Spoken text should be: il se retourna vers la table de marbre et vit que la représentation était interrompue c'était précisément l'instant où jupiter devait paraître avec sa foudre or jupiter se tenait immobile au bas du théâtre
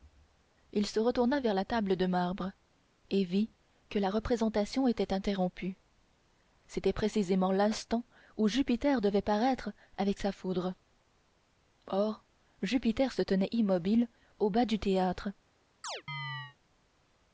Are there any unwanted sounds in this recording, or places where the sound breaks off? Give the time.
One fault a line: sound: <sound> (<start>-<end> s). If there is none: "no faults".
sound: chirp (15.8-16.6 s)